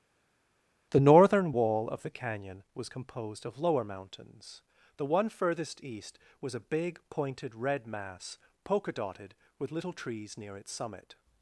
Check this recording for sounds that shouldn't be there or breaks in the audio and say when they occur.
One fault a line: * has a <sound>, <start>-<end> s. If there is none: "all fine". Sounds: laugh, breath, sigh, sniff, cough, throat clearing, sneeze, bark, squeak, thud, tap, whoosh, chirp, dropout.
all fine